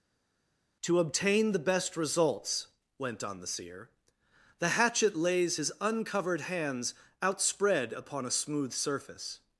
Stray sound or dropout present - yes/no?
no